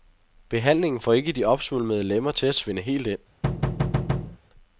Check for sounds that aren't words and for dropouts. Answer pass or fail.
fail